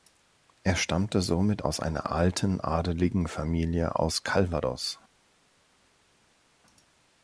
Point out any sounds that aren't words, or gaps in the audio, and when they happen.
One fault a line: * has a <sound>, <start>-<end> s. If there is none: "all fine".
all fine